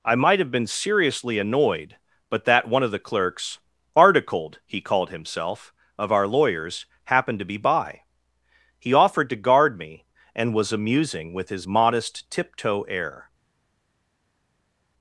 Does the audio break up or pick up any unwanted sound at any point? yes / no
no